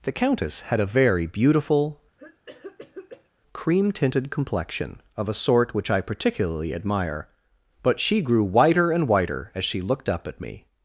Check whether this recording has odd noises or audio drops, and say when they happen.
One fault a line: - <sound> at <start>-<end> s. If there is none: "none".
- cough at 2.2-3.3 s